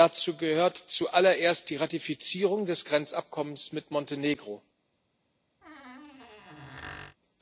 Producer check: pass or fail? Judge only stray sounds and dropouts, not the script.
fail